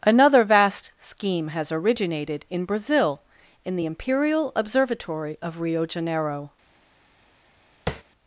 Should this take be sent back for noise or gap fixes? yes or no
yes